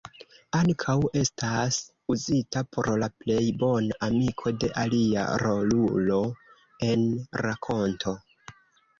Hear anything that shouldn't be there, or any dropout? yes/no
no